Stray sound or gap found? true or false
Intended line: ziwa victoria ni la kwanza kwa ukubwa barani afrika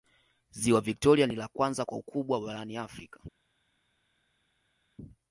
false